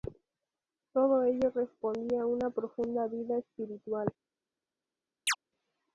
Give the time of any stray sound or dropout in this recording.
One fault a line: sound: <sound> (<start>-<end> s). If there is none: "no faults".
sound: chirp (5.3-5.4 s)